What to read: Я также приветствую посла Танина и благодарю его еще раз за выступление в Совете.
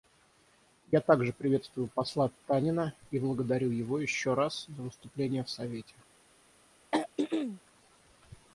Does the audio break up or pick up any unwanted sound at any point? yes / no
yes